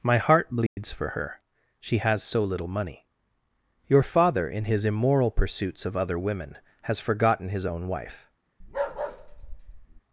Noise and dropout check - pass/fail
fail